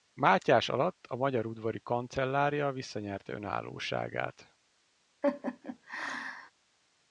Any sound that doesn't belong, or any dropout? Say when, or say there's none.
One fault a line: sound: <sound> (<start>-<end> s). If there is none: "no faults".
sound: laugh (5.2-6.5 s)